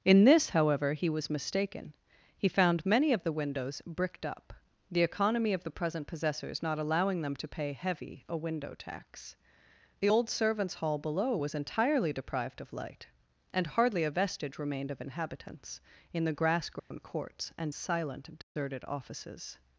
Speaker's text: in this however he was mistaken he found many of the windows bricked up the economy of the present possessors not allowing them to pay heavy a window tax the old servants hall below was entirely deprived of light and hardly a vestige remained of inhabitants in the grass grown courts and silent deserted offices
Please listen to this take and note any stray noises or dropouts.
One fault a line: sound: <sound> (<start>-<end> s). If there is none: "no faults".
sound: dropout (16.8-16.9 s)
sound: dropout (18.4-18.6 s)